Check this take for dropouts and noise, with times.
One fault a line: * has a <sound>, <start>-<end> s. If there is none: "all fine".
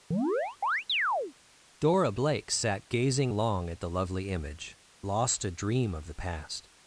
* has a chirp, 0.1-1.3 s